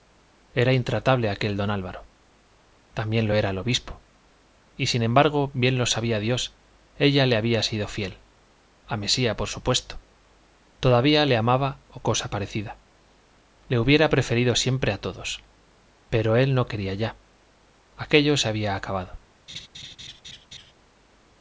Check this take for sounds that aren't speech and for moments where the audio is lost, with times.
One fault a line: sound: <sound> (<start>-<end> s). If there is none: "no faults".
sound: laugh (19.5-20.7 s)